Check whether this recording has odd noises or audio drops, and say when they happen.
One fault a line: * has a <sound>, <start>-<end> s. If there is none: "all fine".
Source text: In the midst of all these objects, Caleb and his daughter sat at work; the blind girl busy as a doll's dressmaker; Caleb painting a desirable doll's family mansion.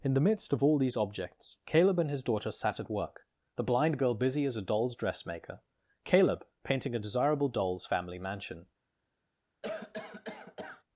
* has a cough, 9.6-10.8 s